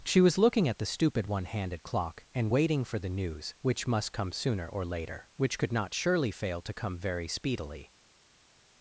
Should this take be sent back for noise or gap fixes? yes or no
no